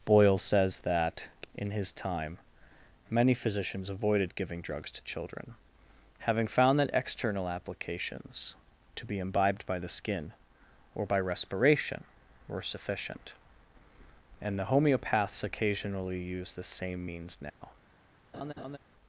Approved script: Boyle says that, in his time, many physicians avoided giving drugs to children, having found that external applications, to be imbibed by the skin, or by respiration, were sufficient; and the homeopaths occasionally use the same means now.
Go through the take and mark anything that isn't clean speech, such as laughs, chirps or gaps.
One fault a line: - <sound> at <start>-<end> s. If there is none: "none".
- dropout at 17.5-17.6 s
- laugh at 18.3-18.8 s